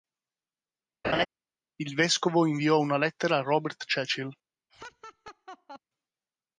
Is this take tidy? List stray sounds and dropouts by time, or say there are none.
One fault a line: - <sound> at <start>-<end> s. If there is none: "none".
- laugh at 1.0-1.3 s
- laugh at 4.7-5.8 s